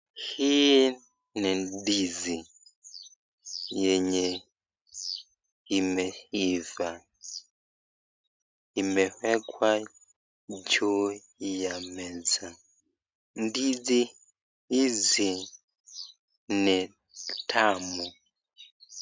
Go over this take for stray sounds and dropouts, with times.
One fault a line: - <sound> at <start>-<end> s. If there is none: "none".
none